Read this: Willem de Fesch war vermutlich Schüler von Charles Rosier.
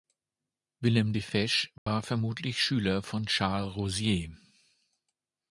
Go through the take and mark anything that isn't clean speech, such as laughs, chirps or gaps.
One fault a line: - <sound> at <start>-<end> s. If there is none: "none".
- dropout at 1.8-1.9 s